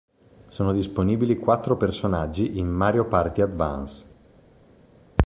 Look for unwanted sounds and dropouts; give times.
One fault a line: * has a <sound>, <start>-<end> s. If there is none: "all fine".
all fine